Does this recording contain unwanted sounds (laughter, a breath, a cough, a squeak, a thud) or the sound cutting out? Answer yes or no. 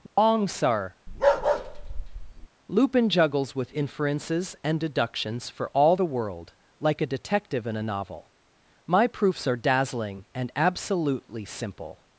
yes